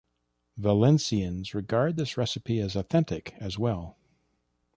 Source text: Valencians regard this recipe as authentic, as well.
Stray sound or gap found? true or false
false